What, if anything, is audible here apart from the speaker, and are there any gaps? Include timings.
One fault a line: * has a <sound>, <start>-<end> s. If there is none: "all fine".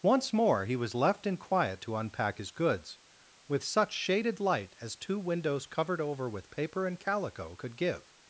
all fine